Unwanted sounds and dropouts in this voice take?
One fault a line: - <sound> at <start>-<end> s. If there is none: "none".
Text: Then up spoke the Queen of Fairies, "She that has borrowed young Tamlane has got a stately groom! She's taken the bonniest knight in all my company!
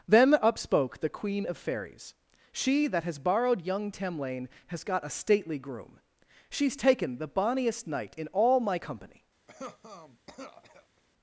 - cough at 9.5-11.0 s